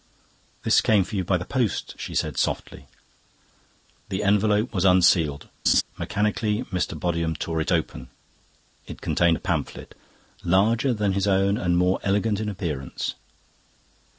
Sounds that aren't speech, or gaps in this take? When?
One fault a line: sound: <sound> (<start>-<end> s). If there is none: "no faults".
sound: laugh (5.7-5.8 s)